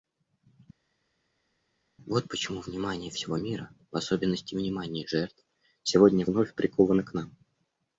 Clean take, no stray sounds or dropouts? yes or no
yes